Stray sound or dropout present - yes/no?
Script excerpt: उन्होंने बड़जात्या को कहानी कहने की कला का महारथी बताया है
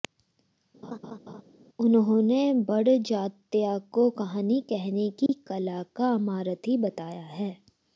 yes